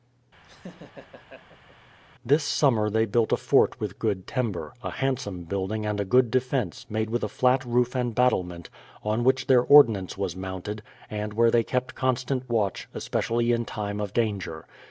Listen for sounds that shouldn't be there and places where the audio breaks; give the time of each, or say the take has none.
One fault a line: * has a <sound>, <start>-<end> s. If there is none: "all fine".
* has a laugh, 0.4-1.8 s